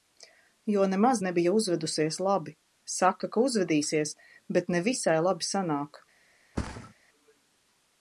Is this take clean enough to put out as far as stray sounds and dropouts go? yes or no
no